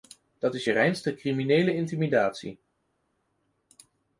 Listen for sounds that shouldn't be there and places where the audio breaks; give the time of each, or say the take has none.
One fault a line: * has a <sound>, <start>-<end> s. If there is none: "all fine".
all fine